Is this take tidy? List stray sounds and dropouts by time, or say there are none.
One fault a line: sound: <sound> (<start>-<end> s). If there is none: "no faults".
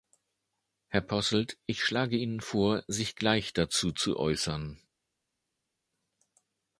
no faults